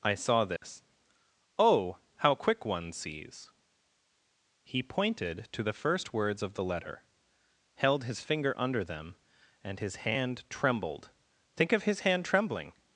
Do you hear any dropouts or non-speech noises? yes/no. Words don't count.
yes